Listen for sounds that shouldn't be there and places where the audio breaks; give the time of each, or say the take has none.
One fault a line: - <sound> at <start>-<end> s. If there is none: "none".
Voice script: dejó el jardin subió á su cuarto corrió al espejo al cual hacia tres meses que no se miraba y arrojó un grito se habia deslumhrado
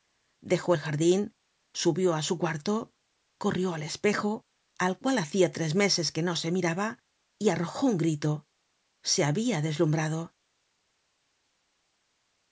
none